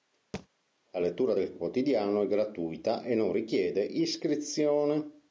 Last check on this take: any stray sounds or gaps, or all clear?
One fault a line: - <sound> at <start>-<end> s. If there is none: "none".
- thud at 0.3-0.5 s